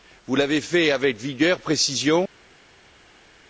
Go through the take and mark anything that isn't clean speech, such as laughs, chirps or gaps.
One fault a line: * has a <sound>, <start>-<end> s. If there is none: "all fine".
all fine